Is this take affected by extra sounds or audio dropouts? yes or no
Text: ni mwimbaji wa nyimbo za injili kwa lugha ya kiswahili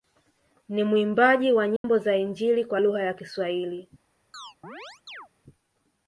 yes